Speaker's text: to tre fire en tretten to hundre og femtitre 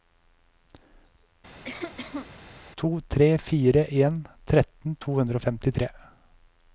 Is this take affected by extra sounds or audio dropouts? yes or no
yes